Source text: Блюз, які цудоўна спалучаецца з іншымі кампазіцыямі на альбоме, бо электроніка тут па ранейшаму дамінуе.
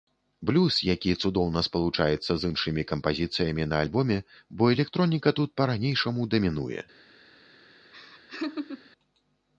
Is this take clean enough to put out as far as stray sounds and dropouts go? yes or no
no